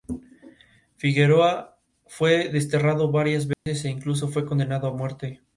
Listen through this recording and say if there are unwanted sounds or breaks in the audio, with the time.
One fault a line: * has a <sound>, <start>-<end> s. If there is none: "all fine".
* has a dropout, 3.5-3.7 s